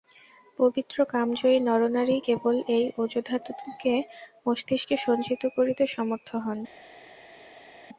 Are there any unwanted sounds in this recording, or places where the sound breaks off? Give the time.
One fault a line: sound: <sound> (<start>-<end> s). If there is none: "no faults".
no faults